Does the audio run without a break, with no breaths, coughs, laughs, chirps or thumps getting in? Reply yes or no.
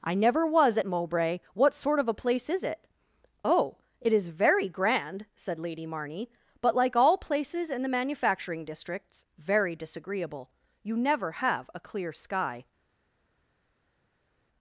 yes